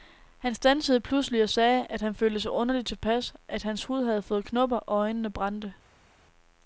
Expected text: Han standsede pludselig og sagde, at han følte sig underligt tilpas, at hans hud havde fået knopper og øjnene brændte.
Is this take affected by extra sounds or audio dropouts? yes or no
no